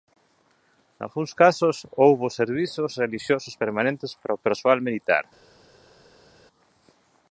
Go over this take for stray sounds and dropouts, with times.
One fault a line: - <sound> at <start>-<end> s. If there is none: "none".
none